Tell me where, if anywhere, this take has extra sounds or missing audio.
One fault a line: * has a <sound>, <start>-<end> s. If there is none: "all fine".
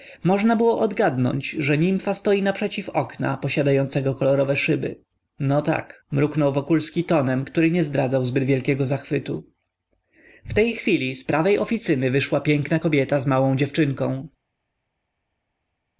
all fine